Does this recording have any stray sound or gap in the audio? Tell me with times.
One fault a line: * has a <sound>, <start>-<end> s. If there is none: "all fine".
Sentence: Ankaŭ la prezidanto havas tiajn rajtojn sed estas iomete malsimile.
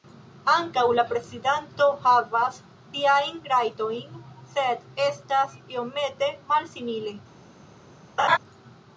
* has a laugh, 8.2-8.4 s